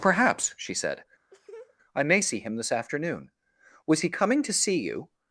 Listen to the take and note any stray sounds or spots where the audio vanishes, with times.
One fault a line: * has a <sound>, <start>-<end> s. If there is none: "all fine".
* has a laugh, 1.3-1.8 s